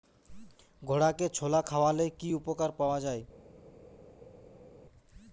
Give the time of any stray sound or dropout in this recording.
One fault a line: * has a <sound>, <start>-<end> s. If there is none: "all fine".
all fine